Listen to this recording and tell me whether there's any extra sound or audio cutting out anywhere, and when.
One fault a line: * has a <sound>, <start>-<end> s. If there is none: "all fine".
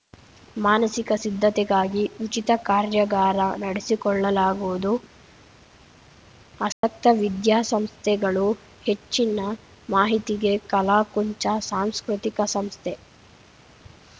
* has a dropout, 6.7-6.8 s